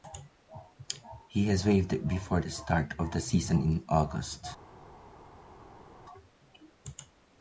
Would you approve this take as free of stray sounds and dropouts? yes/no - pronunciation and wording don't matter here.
yes